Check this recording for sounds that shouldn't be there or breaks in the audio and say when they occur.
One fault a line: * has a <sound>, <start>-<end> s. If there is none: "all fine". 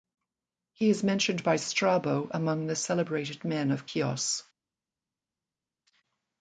all fine